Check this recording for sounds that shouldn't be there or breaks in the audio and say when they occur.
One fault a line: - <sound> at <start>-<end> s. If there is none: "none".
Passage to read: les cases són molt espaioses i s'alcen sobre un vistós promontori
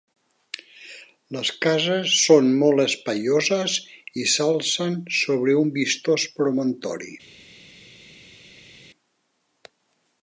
none